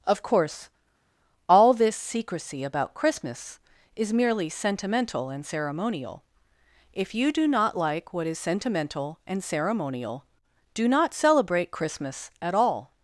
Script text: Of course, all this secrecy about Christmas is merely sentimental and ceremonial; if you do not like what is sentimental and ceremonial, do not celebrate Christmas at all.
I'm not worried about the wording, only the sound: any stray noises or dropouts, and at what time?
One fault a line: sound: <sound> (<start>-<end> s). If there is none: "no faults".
no faults